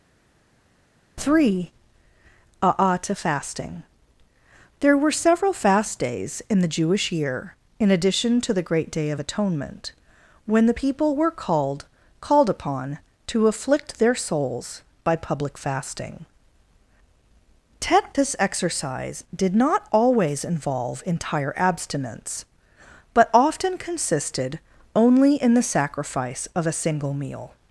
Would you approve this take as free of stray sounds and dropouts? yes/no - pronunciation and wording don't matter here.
yes